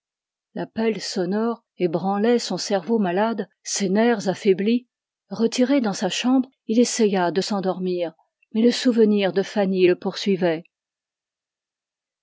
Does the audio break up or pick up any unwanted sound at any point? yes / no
no